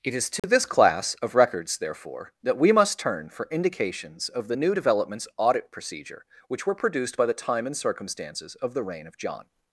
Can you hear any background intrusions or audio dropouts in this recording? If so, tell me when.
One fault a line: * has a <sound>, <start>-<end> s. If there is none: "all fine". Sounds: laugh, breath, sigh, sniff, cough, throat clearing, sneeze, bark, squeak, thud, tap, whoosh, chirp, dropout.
* has a dropout, 0.4-0.4 s